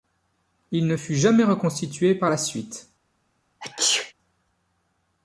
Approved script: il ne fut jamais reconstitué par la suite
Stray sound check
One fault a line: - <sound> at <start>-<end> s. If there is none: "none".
- sneeze at 3.6-4.1 s